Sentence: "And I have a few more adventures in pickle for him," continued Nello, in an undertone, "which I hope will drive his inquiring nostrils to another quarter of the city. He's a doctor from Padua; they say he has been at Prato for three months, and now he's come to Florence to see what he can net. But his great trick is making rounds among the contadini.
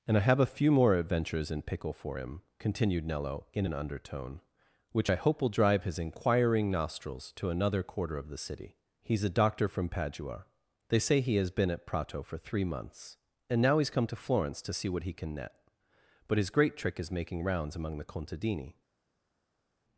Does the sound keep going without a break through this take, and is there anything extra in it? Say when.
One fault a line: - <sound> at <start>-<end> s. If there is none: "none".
none